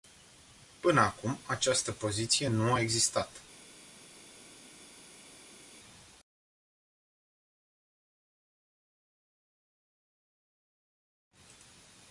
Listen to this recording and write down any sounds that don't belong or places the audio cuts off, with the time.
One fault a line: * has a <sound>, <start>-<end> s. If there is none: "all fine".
all fine